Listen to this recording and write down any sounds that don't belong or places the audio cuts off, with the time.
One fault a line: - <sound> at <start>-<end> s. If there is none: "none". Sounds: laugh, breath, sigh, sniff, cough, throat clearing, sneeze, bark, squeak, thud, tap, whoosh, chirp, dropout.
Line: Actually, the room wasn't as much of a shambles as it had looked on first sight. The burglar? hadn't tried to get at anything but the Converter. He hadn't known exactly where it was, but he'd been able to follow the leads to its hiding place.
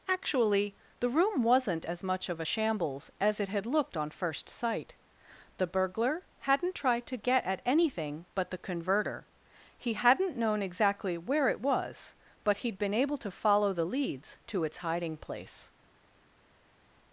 none